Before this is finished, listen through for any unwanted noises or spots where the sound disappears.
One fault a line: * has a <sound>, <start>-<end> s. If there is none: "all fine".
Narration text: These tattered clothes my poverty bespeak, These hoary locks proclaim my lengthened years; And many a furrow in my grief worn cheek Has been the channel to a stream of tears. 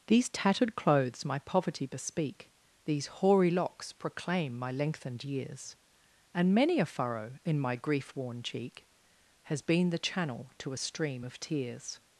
all fine